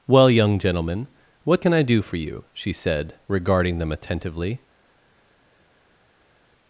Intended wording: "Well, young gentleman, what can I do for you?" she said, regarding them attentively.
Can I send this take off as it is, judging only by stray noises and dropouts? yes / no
yes